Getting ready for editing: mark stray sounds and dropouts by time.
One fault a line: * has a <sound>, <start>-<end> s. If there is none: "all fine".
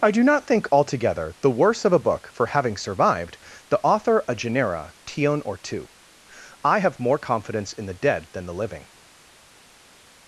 all fine